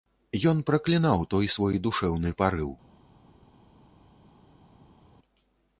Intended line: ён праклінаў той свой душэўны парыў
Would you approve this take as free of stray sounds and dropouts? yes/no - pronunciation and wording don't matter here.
yes